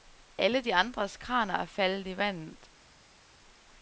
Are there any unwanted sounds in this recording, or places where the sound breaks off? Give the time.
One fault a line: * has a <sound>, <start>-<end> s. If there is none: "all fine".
all fine